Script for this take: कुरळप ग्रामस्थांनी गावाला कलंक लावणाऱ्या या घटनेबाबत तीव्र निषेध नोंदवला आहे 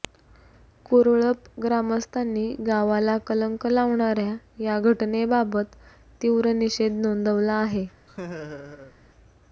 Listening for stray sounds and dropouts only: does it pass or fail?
fail